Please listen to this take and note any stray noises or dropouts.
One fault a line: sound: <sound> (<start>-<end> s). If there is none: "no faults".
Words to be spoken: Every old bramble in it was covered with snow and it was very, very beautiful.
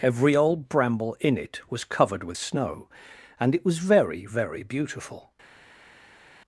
no faults